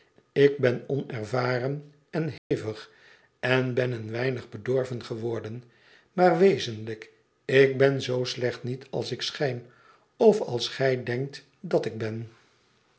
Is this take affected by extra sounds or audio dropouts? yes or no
yes